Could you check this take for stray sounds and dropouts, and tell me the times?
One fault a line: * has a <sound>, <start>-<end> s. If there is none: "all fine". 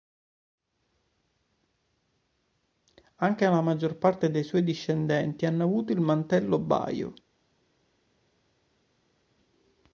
all fine